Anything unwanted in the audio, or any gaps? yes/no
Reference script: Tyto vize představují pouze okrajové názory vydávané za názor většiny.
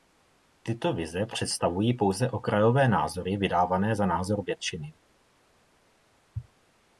no